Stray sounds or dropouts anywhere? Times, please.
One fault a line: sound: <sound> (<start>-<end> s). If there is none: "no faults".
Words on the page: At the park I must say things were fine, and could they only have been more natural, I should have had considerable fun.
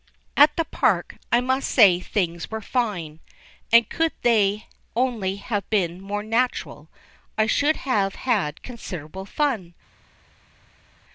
no faults